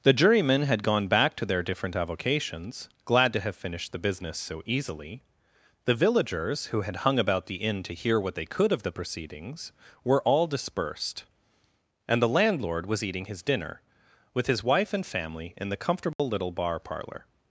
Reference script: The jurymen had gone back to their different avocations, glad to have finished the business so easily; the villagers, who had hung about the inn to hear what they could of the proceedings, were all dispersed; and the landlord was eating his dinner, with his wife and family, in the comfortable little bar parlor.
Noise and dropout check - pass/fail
fail